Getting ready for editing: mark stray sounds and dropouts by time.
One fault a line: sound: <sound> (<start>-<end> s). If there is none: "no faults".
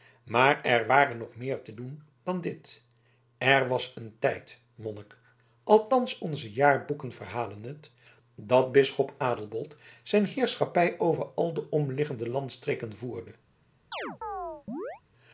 sound: chirp (13.9-15.0 s)